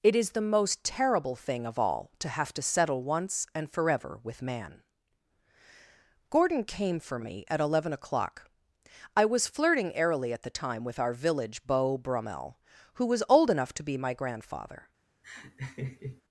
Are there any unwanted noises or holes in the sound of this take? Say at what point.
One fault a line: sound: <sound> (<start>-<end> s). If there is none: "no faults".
sound: laugh (15.2-16.2 s)